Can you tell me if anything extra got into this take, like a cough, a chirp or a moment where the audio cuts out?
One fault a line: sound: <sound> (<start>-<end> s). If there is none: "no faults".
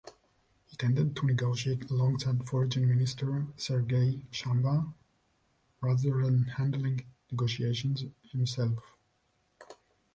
no faults